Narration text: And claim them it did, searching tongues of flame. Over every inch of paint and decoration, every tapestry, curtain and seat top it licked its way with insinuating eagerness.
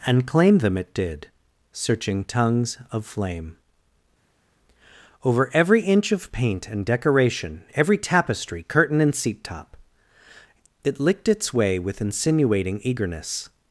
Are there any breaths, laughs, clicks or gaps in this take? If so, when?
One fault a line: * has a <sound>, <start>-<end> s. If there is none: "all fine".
all fine